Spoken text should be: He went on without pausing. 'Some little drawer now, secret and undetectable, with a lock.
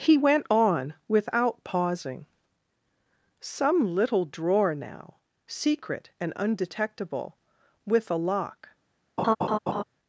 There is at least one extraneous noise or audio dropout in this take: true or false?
true